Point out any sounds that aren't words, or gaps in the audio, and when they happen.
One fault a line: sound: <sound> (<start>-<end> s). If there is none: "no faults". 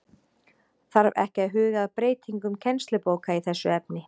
no faults